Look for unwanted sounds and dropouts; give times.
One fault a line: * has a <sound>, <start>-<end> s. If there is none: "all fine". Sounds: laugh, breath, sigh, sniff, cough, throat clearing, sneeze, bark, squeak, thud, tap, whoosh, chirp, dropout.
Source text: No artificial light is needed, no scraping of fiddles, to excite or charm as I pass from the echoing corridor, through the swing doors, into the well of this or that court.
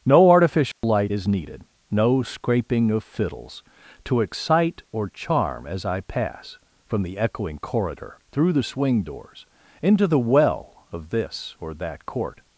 * has a dropout, 0.7-0.8 s